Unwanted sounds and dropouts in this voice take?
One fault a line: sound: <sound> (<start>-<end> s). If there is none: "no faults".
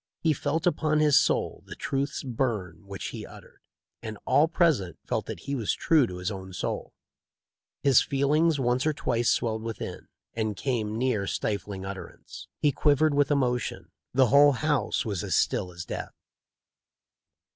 no faults